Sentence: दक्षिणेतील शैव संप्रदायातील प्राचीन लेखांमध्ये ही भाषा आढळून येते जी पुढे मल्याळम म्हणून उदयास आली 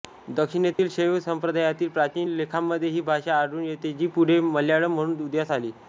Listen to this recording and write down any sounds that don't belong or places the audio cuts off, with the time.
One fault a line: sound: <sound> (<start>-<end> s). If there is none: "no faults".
sound: dropout (0.7-0.8 s)